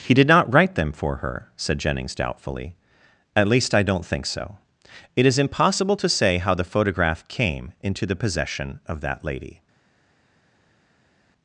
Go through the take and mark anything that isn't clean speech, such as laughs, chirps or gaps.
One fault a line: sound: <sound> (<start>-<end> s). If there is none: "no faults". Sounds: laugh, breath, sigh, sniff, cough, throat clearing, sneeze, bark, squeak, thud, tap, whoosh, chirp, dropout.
no faults